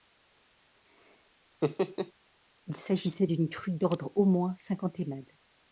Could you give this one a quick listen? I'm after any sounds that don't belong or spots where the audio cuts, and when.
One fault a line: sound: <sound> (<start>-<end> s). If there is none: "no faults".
sound: laugh (1.6-2.1 s)